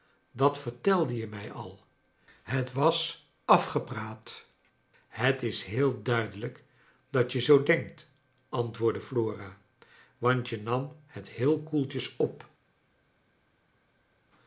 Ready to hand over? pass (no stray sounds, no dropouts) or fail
pass